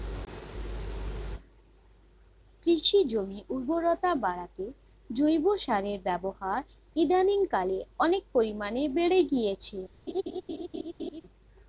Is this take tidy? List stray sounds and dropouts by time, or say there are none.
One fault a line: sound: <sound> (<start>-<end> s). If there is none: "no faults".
sound: laugh (10.1-11.2 s)